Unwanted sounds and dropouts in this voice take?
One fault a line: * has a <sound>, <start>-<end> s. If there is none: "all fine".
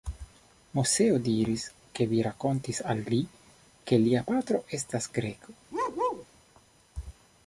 * has a bark, 5.7-6.3 s